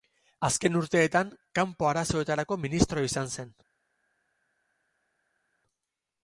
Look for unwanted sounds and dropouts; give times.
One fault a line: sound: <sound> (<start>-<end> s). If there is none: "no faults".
no faults